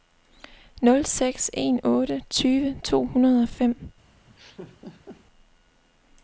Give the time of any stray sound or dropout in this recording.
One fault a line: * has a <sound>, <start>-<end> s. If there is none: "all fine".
* has a laugh, 4.3-5.3 s